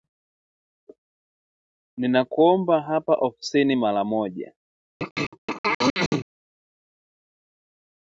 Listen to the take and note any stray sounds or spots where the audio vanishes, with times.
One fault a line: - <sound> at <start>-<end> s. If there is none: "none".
- throat clearing at 5.0-6.3 s